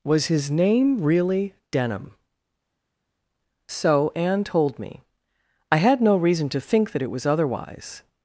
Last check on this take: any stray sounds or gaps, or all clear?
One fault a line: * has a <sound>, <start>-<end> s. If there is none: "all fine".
all fine